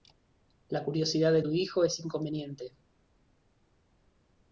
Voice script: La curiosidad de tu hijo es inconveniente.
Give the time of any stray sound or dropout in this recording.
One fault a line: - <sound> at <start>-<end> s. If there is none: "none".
none